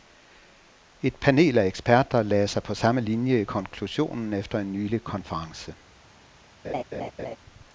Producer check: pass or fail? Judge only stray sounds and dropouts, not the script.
fail